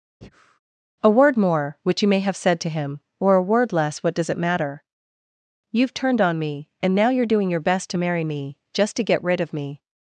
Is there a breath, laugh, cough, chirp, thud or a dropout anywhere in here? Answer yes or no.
yes